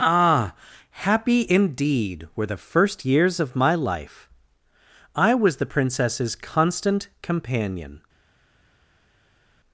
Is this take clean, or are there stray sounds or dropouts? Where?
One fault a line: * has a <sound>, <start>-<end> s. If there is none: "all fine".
all fine